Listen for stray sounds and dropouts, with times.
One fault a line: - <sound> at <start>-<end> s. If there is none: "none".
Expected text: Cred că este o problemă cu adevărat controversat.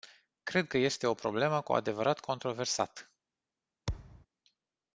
- thud at 3.9-4.3 s